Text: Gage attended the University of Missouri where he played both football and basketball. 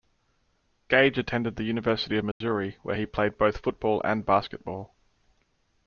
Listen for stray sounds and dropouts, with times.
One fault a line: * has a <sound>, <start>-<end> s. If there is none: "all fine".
* has a dropout, 2.3-2.4 s